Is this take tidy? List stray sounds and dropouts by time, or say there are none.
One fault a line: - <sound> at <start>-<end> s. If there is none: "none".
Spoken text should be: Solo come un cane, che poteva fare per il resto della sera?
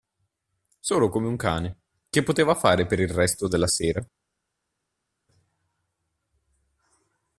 none